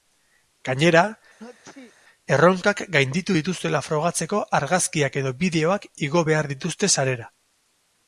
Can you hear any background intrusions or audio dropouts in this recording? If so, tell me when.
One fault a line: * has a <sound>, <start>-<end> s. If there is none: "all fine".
* has a sneeze, 1.4-1.9 s